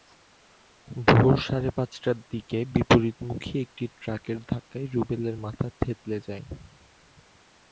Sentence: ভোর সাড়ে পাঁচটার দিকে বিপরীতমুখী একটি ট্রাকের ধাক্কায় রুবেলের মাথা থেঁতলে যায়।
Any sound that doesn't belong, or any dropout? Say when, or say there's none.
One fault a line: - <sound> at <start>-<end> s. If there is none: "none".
none